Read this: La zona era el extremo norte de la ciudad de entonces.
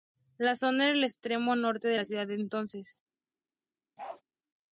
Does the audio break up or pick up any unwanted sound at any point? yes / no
yes